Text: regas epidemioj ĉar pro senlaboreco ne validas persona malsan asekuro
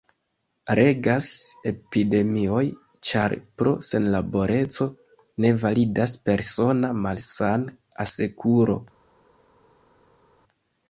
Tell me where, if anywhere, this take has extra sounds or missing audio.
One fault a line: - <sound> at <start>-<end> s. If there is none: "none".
none